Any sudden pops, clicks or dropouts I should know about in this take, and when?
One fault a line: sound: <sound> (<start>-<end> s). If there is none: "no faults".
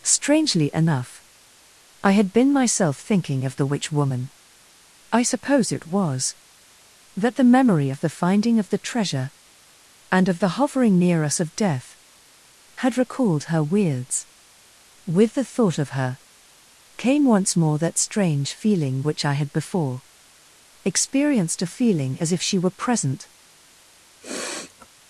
sound: sniff (24.2-24.9 s)